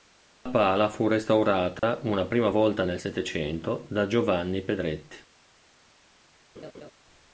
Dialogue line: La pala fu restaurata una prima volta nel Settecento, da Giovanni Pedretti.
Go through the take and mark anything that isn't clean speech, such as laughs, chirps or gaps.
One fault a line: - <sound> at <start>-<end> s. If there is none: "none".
- dropout at 1.8-1.8 s
- laugh at 6.5-6.9 s